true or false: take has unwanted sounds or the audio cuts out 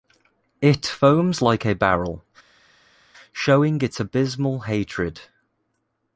false